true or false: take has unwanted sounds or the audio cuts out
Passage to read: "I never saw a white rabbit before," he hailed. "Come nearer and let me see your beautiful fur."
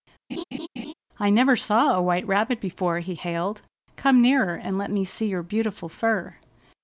true